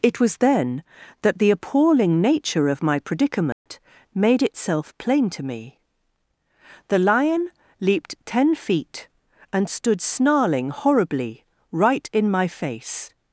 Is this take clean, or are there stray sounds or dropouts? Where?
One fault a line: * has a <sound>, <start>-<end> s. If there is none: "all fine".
* has a dropout, 3.5-3.7 s